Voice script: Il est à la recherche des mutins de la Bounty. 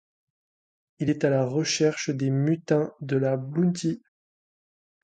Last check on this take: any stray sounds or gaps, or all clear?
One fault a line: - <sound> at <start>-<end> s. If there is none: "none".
none